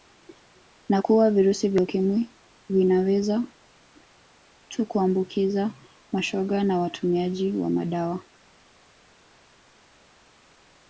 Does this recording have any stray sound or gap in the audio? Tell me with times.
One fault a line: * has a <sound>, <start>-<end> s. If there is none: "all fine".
all fine